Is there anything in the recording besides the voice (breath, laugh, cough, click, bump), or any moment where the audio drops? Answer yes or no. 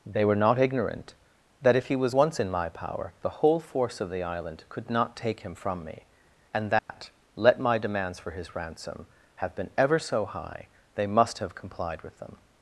yes